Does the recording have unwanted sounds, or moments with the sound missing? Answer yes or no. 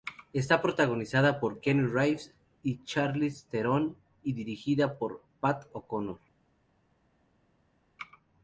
no